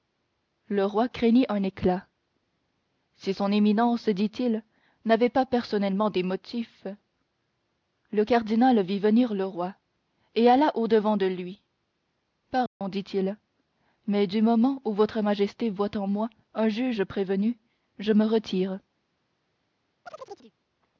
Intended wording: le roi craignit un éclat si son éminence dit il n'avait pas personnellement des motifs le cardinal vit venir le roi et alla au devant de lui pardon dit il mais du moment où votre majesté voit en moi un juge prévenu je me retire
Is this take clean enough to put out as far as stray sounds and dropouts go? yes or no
no